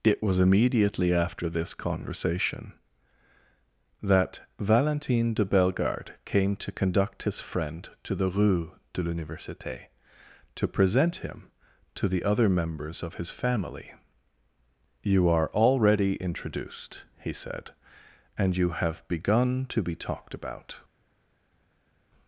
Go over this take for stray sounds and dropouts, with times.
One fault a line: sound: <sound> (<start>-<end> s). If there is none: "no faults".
no faults